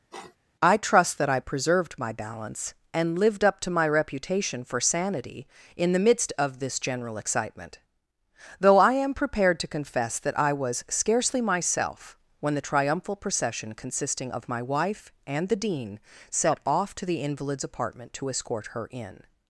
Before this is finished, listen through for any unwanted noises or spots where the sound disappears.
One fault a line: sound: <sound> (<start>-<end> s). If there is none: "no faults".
sound: sniff (0.1-0.4 s)